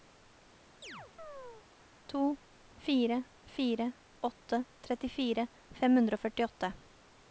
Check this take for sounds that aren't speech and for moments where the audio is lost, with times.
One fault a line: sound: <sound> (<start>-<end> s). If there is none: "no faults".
sound: chirp (0.8-1.7 s)